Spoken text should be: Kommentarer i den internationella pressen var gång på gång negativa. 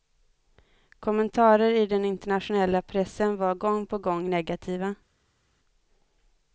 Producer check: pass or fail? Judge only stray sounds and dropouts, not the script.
pass